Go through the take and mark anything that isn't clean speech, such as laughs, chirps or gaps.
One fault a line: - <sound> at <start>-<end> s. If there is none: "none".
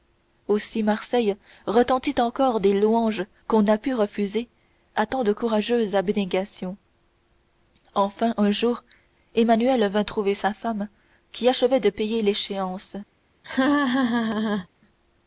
- laugh at 13.4-14.7 s